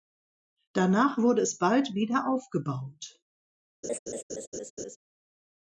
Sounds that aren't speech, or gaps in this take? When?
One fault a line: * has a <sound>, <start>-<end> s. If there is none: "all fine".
* has a laugh, 3.8-5.0 s